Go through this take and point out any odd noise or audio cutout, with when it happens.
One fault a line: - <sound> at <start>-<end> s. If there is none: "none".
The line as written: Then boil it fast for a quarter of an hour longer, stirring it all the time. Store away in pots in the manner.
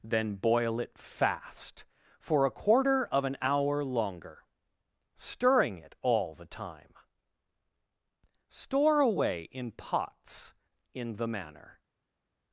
none